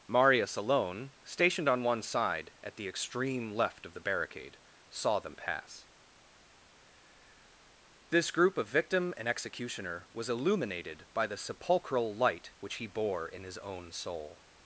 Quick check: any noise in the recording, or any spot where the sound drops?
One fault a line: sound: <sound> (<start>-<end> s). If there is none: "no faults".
no faults